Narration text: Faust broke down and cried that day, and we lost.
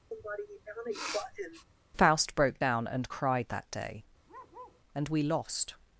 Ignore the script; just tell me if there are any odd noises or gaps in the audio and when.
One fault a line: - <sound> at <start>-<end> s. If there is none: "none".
- sniff at 0.1-1.7 s
- bark at 4.3-4.8 s